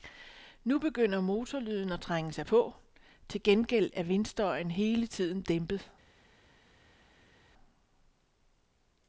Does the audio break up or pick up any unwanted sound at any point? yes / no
no